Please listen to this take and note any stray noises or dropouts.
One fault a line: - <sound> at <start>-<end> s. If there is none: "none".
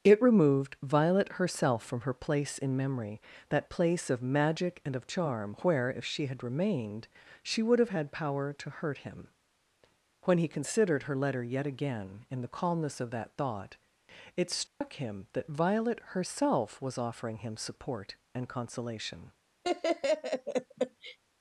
- dropout at 14.7-14.8 s
- laugh at 19.6-21.2 s